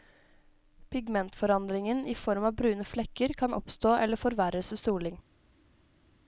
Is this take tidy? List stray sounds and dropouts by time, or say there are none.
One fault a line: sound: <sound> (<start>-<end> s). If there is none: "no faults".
no faults